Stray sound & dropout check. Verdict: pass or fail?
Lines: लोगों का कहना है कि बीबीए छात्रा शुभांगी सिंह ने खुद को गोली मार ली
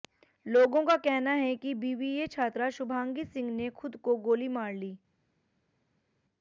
pass